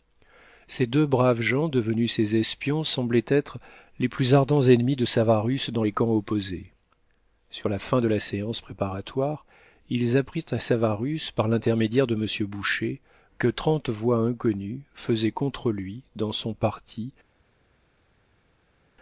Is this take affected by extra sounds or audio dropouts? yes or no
no